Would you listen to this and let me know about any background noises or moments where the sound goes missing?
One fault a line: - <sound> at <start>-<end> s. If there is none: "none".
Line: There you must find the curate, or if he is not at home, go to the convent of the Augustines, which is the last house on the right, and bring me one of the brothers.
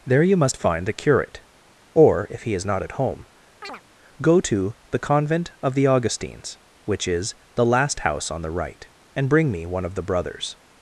- chirp at 3.6-3.8 s